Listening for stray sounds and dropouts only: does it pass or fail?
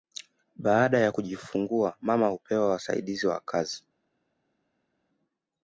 pass